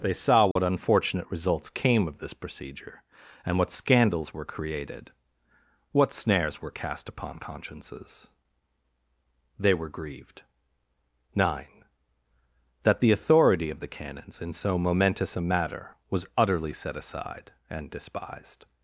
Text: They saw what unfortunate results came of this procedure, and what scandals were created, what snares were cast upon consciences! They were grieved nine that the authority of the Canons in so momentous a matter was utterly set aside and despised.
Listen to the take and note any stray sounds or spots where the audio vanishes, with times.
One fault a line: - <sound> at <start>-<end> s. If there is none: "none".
- dropout at 0.5-0.6 s